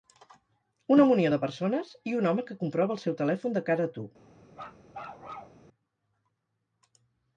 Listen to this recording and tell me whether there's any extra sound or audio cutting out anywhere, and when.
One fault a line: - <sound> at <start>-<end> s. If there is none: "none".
- bark at 4.5-5.6 s